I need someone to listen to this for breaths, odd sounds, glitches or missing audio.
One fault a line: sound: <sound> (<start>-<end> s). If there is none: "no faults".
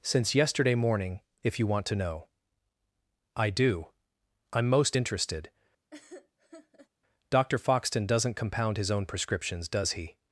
sound: laugh (5.9-6.9 s)